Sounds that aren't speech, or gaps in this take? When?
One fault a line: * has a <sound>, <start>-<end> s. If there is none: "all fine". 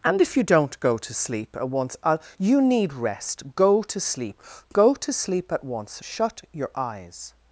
all fine